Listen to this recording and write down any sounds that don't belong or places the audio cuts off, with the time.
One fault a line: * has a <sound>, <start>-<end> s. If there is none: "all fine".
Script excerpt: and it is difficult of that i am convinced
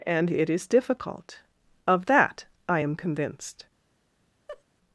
* has a laugh, 4.5-4.6 s